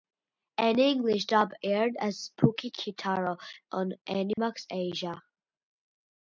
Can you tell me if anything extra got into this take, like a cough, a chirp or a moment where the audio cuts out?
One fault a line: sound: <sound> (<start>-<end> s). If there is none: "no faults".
sound: dropout (4.3-4.4 s)